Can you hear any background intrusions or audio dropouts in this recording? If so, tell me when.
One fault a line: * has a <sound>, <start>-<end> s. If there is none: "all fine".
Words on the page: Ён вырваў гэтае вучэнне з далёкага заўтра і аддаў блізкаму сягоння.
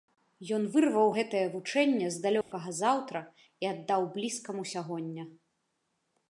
* has a dropout, 2.4-2.5 s